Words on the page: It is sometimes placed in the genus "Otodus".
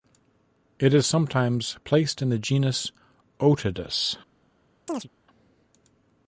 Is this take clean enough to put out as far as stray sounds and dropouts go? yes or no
no